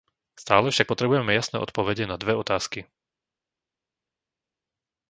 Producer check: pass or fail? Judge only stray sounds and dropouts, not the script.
pass